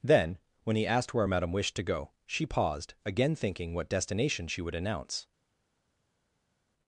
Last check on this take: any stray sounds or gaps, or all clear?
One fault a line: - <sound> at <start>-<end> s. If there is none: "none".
none